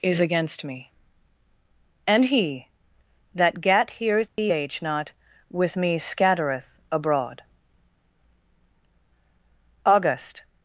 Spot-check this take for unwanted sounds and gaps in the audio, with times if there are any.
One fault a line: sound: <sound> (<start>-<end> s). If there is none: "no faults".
sound: dropout (4.3-4.4 s)